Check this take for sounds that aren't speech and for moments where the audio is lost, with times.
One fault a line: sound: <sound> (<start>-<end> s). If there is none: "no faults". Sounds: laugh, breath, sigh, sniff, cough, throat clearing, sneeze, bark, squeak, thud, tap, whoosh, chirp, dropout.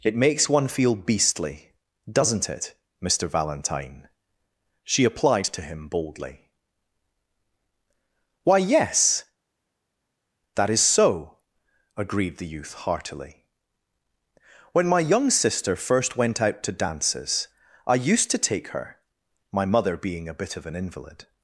no faults